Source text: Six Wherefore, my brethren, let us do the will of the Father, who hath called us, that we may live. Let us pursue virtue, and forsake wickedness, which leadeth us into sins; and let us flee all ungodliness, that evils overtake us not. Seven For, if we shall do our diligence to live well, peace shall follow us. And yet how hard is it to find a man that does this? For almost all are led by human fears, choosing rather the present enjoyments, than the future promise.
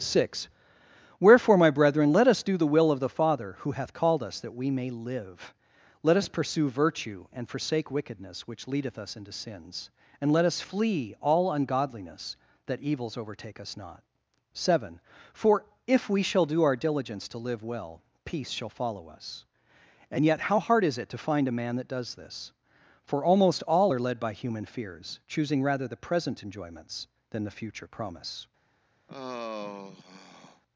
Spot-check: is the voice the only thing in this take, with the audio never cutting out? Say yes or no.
no